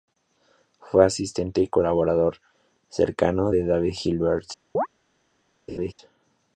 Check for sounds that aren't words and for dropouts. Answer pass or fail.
fail